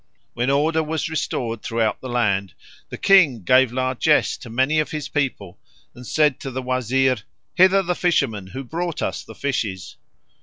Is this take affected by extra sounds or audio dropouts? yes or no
no